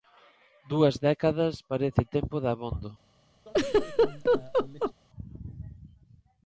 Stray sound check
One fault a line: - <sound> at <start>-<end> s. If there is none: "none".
- laugh at 3.5-4.9 s